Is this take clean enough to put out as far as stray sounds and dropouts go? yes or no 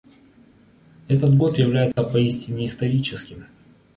no